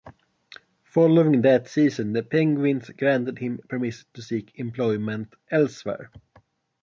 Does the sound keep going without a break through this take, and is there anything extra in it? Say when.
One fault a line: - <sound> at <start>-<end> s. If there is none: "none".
none